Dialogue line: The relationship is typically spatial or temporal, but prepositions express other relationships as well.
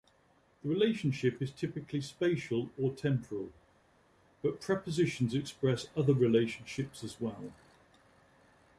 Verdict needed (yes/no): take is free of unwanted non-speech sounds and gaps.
yes